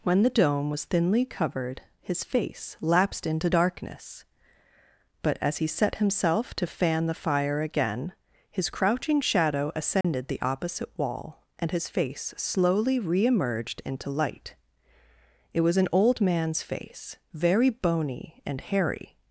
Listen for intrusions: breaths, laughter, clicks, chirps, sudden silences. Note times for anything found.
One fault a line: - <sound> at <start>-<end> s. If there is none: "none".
- dropout at 10.0-10.0 s